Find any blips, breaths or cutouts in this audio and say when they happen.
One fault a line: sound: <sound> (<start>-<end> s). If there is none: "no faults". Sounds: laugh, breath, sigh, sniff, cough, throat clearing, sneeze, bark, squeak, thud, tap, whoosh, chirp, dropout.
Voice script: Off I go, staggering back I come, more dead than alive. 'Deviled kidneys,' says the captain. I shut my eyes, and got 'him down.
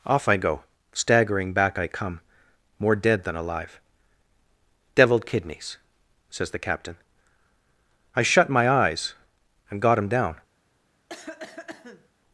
sound: cough (11.1-12.1 s)